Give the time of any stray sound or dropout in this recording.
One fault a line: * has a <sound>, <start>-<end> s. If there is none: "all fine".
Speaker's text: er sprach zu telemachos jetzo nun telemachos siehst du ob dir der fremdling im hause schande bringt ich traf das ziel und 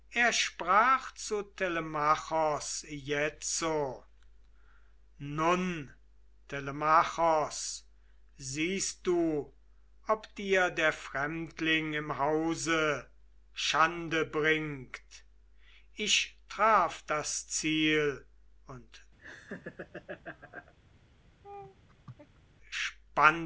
* has a laugh, 19.2-20.7 s
* has a laugh, 21.4-22.4 s